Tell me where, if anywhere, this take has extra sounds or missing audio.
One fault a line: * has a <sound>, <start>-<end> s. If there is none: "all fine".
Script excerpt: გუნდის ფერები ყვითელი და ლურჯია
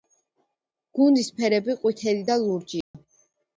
* has a dropout, 2.8-2.9 s